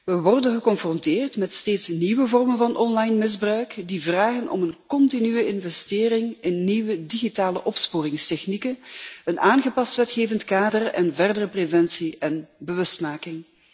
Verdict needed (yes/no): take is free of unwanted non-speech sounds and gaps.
yes